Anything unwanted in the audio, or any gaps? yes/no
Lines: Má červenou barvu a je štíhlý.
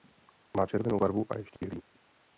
yes